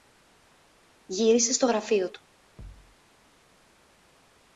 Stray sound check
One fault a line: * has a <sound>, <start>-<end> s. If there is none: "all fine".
* has a thud, 2.6-3.0 s